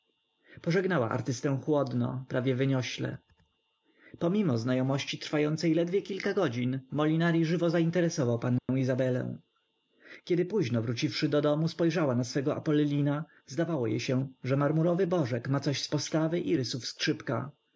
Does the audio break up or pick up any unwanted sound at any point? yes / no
yes